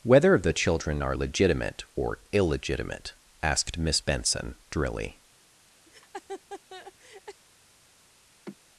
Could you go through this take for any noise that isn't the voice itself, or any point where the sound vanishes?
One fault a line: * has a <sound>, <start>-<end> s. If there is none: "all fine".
* has a laugh, 5.9-7.4 s
* has a sigh, 8.5-8.6 s